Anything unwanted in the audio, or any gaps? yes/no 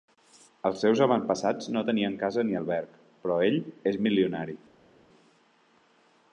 no